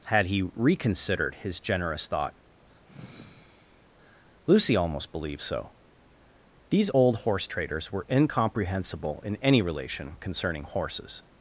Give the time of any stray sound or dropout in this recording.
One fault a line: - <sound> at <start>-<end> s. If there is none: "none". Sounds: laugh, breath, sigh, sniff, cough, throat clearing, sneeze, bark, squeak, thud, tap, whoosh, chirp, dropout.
- sigh at 2.9-3.9 s